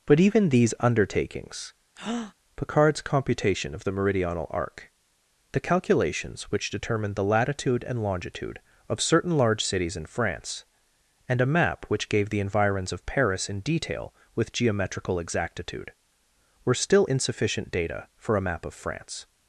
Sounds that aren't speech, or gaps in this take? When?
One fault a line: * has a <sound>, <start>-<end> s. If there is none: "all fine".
* has a breath, 2.0-2.3 s